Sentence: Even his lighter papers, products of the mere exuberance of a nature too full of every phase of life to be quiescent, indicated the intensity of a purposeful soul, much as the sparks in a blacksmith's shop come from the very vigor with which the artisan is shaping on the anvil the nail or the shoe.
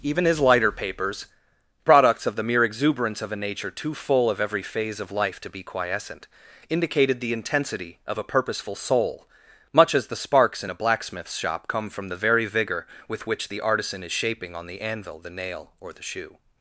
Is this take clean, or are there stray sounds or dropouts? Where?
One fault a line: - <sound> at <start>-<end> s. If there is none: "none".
none